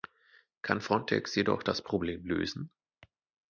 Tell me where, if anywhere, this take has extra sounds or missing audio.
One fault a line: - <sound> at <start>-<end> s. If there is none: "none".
none